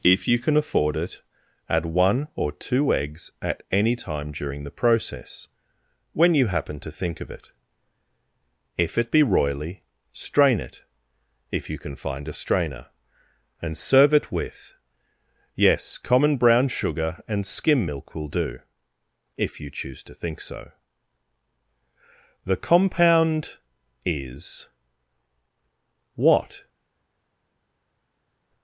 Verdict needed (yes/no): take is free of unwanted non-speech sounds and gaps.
yes